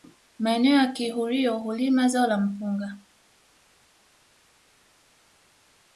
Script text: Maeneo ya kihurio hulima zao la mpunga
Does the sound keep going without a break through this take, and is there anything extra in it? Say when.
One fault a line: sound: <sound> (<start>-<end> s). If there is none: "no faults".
no faults